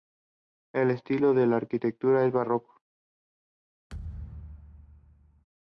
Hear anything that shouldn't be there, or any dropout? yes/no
yes